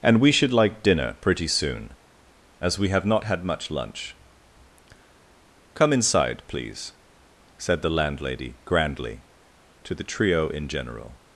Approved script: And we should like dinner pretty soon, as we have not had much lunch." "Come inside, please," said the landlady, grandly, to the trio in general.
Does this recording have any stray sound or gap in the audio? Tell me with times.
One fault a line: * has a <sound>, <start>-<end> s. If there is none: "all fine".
all fine